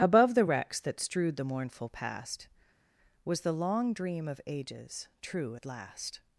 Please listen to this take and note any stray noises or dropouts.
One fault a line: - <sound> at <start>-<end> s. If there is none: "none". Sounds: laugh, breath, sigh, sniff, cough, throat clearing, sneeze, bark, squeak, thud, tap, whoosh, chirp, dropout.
none